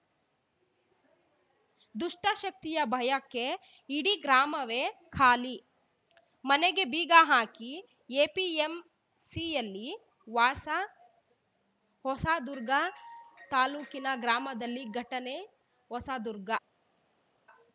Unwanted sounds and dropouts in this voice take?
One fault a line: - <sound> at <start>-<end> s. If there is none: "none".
none